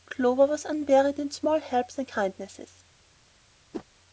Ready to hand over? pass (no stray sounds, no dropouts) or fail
fail